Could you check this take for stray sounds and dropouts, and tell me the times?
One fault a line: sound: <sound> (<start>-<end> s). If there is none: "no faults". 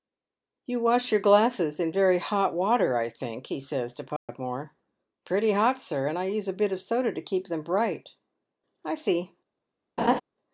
sound: dropout (4.2-4.3 s)
sound: laugh (10.0-10.2 s)